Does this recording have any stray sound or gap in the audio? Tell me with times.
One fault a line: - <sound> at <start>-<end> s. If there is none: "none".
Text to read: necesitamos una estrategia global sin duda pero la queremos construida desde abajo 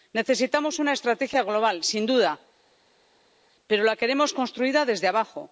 none